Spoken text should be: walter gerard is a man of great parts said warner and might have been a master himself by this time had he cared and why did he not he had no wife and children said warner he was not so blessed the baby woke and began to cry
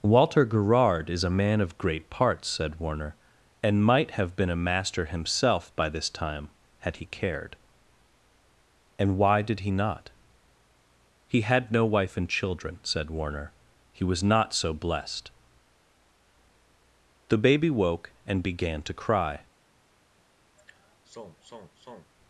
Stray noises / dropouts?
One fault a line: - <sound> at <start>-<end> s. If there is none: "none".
- sigh at 20.6-22.1 s